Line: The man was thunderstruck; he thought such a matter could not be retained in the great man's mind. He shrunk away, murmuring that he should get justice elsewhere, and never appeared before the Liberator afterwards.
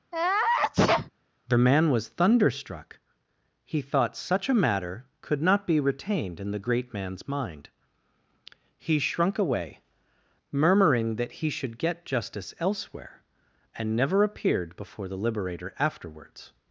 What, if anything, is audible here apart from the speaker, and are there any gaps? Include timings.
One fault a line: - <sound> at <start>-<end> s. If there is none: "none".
- sneeze at 0.1-1.1 s